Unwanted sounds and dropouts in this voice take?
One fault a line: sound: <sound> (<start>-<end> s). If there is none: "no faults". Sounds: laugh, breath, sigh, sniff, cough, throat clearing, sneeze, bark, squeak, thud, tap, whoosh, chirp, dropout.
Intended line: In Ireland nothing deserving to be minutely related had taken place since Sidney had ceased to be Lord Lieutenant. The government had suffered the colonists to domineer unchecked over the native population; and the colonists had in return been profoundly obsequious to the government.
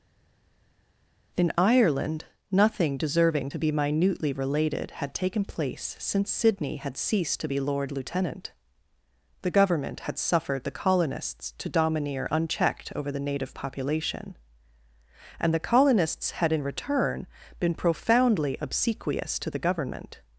no faults